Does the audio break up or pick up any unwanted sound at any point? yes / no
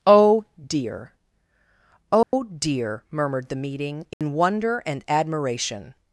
yes